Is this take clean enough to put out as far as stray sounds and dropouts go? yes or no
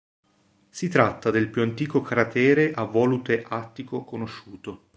yes